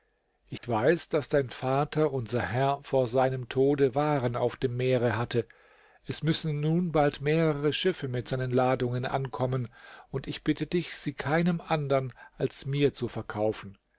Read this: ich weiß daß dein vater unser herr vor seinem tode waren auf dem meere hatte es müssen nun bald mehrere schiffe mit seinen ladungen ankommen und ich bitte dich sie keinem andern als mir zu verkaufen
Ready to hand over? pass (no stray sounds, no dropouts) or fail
fail